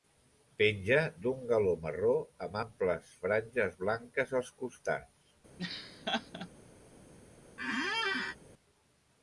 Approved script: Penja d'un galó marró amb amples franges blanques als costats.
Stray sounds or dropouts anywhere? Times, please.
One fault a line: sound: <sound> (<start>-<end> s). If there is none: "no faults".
sound: laugh (5.6-6.5 s)
sound: squeak (7.6-8.4 s)